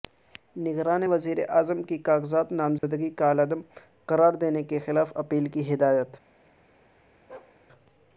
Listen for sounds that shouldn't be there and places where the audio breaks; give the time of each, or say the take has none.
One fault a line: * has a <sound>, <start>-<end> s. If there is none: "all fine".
* has a dropout, 2.8-2.8 s
* has a bark, 7.3-7.6 s